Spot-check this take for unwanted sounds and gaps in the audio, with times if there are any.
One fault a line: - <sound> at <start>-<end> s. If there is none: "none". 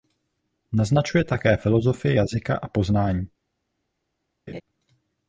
- laugh at 4.5-4.6 s